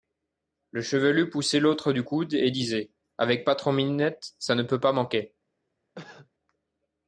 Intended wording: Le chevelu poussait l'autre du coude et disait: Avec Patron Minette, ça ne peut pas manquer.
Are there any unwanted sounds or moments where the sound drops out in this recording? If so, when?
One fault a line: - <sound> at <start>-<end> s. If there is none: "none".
- cough at 5.9-6.3 s